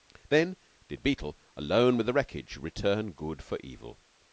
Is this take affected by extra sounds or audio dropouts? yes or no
no